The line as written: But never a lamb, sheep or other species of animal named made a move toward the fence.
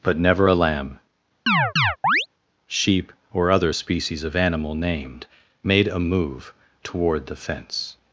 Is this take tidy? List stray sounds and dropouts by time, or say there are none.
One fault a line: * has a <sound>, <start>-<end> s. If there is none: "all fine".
* has a chirp, 1.5-2.3 s